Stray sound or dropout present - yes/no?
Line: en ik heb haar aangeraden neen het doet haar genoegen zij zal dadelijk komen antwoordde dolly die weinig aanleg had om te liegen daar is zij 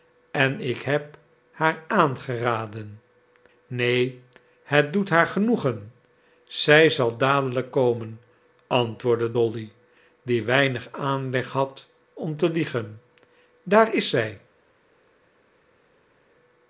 no